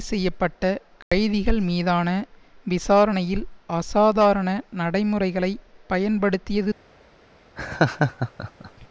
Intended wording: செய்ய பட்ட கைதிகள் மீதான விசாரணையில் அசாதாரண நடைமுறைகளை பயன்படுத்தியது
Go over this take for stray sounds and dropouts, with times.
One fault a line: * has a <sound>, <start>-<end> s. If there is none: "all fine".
* has a dropout, 1.0-1.1 s
* has a laugh, 7.6-8.9 s